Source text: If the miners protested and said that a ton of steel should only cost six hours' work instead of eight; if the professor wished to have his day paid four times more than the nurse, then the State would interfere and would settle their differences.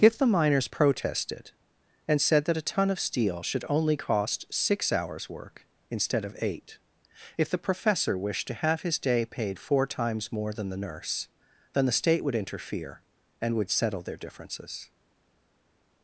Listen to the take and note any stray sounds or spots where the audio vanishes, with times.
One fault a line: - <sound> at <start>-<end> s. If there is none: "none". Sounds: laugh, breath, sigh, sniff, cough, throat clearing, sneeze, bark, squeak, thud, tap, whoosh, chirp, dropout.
none